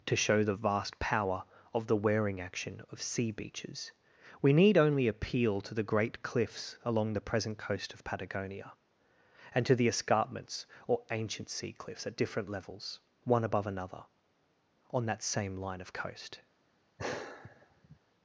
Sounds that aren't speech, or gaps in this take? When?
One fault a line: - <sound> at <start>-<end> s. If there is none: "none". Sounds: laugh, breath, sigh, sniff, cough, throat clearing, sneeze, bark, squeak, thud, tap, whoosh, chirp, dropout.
- sigh at 17.0-18.0 s